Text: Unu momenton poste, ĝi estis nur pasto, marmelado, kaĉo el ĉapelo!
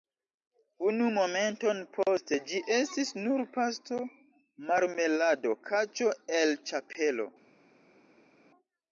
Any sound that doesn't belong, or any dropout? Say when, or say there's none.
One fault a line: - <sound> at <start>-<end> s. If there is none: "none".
none